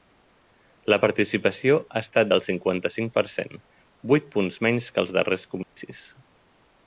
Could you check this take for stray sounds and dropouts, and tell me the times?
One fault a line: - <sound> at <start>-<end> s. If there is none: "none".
- dropout at 5.6-5.8 s